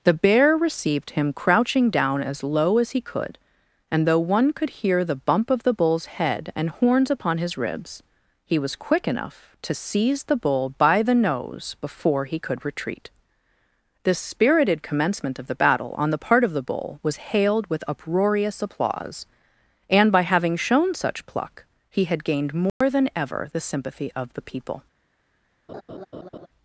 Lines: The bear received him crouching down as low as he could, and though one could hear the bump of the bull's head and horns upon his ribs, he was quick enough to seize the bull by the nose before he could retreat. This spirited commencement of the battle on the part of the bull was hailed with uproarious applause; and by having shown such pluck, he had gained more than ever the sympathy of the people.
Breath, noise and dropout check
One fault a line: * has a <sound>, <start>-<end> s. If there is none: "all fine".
* has a dropout, 22.7-22.8 s
* has a laugh, 25.7-26.5 s